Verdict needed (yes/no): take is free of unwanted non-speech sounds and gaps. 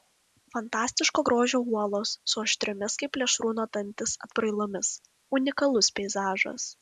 yes